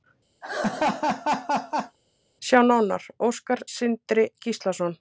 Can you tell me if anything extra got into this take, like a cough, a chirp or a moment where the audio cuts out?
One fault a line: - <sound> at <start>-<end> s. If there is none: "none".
- laugh at 0.4-2.0 s